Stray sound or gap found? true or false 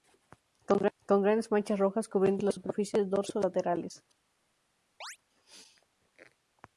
true